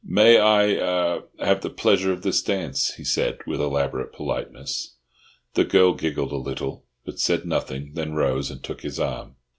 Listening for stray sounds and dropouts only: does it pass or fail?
pass